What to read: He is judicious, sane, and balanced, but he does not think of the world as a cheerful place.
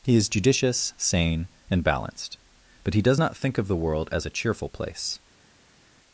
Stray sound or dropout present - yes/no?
no